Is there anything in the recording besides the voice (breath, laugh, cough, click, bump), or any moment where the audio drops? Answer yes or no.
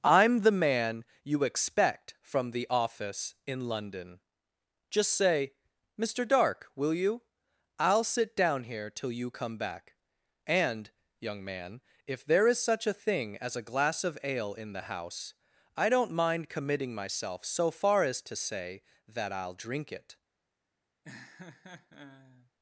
yes